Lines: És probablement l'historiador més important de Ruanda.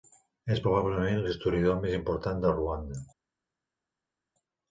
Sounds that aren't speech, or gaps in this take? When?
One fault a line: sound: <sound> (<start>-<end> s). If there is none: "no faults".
no faults